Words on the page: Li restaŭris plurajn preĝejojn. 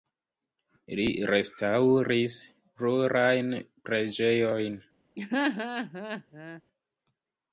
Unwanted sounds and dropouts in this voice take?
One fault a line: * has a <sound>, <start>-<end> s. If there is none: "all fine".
* has a laugh, 5.2-6.6 s